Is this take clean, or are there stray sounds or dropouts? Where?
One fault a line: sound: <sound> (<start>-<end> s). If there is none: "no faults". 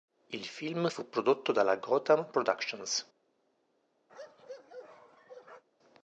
sound: bark (4.1-5.6 s)